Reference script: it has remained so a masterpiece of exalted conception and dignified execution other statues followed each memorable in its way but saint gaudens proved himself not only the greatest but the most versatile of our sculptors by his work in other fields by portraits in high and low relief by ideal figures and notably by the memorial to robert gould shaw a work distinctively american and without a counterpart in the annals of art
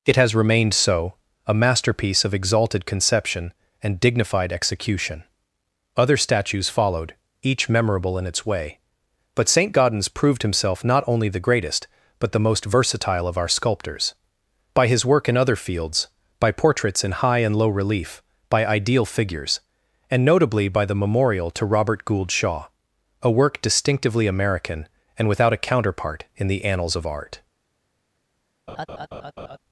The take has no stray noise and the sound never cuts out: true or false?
false